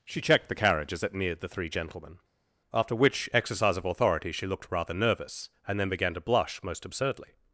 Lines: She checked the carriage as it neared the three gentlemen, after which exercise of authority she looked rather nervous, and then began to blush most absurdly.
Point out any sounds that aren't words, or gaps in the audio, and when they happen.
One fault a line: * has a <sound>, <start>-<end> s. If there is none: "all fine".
all fine